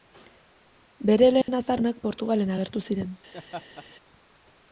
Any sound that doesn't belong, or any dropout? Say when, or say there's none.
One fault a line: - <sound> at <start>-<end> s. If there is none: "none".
- dropout at 1.4-1.5 s
- laugh at 3.3-3.9 s